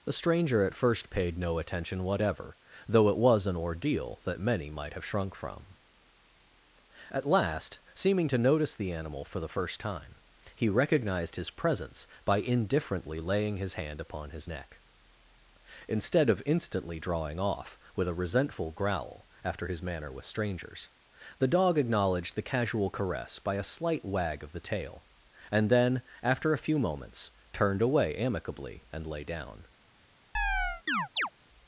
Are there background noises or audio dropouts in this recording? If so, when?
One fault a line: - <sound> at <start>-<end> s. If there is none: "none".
- chirp at 30.3-31.3 s